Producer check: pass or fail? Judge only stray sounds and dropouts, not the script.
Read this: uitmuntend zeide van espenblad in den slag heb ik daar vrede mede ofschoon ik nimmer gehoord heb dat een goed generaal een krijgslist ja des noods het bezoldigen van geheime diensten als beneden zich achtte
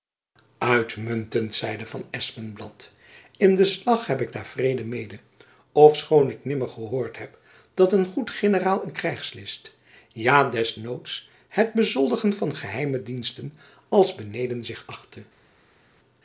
pass